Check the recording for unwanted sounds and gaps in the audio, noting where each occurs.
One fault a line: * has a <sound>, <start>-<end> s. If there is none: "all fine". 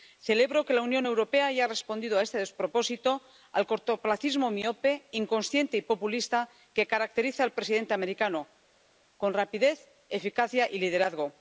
all fine